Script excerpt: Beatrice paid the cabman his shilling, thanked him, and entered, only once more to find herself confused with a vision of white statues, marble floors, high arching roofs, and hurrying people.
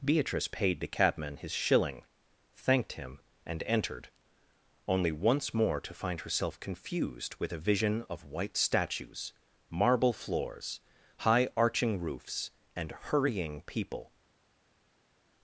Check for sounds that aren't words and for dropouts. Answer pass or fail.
pass